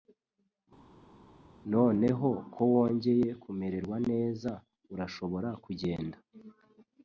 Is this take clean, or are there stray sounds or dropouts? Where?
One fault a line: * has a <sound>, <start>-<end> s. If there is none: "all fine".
all fine